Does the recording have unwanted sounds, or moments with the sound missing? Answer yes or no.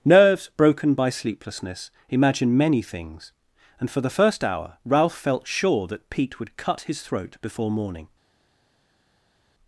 no